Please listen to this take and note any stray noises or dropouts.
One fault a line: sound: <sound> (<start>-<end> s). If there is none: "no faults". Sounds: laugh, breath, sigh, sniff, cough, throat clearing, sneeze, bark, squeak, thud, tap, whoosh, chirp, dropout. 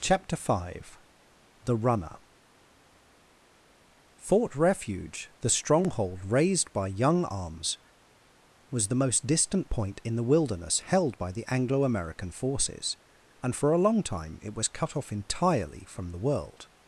no faults